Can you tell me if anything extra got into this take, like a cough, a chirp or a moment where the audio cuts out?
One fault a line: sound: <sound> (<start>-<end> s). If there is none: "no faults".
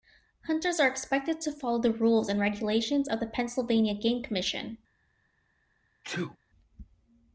sound: sneeze (6.0-6.4 s)